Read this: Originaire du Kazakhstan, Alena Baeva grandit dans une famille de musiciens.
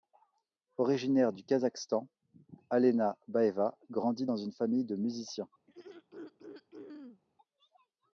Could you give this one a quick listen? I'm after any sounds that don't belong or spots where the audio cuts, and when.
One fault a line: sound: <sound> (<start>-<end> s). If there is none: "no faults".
sound: throat clearing (5.7-7.2 s)